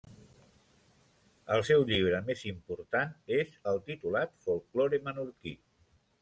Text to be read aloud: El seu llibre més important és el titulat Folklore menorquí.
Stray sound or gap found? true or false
false